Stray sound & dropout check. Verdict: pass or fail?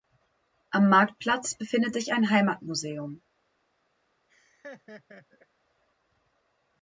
fail